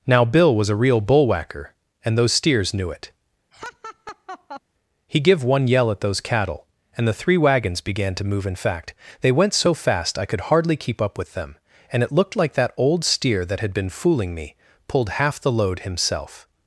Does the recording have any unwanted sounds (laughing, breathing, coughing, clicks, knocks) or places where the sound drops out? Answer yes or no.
yes